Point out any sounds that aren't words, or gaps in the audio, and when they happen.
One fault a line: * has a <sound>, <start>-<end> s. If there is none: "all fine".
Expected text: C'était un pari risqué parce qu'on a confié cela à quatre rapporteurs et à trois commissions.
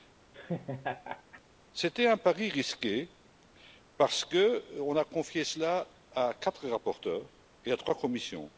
* has a laugh, 0.3-1.4 s